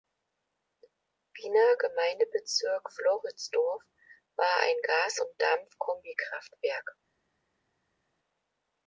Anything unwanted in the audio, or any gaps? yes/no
no